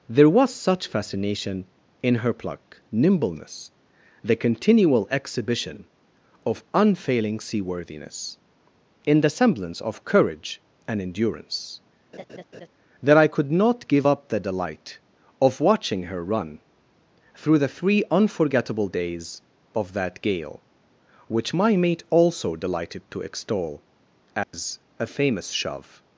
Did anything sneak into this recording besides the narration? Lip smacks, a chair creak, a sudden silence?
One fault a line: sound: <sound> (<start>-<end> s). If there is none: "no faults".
sound: laugh (12.1-12.7 s)
sound: dropout (24.4-24.5 s)